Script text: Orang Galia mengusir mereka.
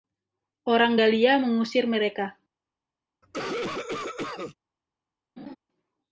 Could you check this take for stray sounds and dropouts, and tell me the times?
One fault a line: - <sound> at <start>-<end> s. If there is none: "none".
- cough at 3.2-4.6 s
- laugh at 5.4-5.6 s